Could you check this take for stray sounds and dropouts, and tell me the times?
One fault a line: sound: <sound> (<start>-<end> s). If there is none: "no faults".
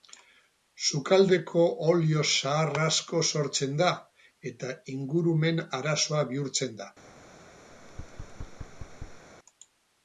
sound: thud (7.7-9.3 s)